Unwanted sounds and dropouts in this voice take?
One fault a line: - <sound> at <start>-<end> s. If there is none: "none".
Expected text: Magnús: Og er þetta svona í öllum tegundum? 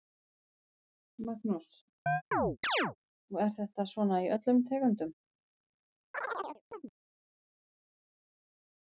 - chirp at 2.1-3.0 s
- chirp at 6.1-6.9 s